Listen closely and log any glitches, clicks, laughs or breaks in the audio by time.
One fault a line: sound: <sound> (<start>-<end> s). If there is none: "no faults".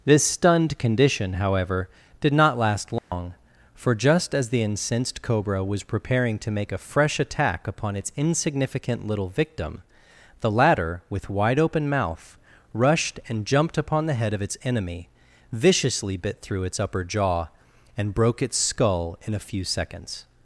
sound: dropout (3.0-3.1 s)